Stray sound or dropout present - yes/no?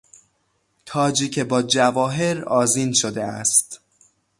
no